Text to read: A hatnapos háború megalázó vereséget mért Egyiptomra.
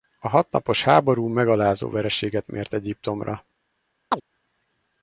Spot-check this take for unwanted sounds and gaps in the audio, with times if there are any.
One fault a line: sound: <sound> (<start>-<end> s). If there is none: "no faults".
sound: chirp (4.1-4.2 s)